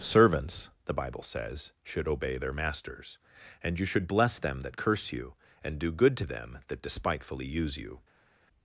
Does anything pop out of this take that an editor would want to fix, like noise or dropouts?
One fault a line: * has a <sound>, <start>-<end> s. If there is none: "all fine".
all fine